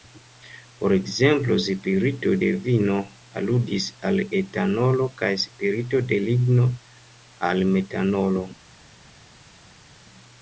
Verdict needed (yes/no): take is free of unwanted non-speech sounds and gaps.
yes